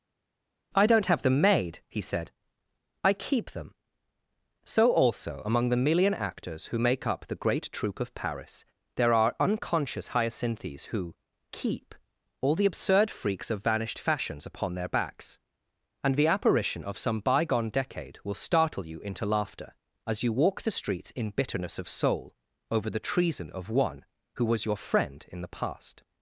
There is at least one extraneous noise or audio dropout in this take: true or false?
false